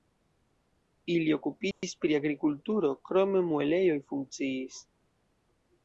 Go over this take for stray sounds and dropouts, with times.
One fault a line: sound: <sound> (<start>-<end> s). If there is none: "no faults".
sound: dropout (1.7-1.8 s)